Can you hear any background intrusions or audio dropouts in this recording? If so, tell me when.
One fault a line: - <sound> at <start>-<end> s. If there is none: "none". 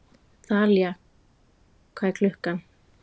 none